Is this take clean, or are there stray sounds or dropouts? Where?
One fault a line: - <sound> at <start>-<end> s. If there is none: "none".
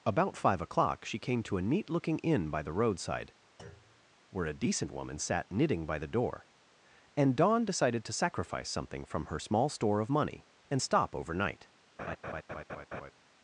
- thud at 3.6-4.1 s
- laugh at 12.0-13.1 s